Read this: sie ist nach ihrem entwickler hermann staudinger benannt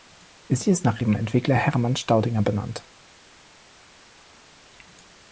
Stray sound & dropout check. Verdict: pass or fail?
pass